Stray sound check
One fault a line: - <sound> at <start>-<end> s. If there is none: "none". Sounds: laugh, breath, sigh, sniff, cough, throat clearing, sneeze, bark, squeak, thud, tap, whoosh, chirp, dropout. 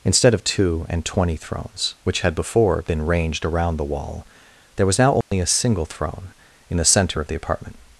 - dropout at 5.2-5.3 s